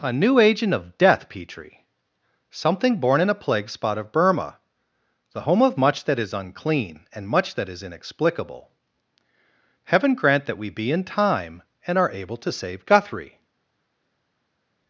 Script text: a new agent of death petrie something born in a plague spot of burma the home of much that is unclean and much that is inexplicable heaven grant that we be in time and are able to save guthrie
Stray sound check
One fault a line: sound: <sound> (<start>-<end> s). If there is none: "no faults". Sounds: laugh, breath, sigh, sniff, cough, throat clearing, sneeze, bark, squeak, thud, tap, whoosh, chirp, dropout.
no faults